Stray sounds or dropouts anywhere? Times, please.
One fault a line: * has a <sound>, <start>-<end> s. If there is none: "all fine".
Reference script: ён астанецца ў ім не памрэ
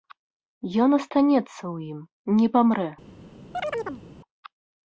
* has a chirp, 3.5-4.0 s